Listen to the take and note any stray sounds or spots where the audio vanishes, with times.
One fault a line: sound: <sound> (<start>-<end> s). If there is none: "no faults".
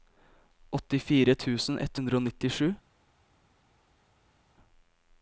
no faults